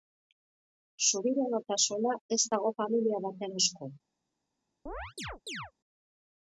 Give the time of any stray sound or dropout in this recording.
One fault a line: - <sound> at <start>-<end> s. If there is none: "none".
- chirp at 4.9-5.7 s